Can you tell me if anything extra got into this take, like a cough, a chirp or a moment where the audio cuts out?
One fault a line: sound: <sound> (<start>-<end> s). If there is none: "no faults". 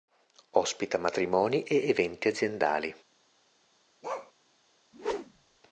sound: bark (4.0-4.3 s)
sound: whoosh (4.9-5.6 s)